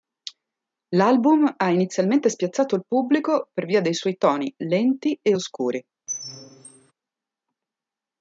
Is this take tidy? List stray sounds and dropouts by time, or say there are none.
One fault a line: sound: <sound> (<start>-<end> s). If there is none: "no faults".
sound: squeak (6.1-6.9 s)